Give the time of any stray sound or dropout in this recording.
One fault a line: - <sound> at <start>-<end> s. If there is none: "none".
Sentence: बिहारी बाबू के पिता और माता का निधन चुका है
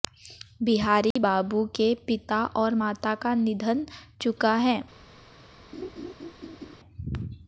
- dropout at 1.1-1.2 s
- laugh at 5.7-6.8 s